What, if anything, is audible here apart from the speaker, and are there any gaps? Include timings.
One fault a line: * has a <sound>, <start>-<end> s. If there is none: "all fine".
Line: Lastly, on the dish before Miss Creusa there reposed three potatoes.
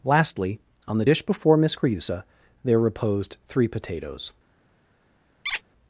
* has a squeak, 5.4-5.6 s